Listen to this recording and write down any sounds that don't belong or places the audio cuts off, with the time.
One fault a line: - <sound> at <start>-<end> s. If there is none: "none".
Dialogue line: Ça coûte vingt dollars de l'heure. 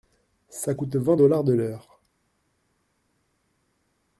none